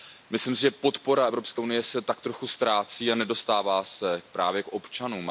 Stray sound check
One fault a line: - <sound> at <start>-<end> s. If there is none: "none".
none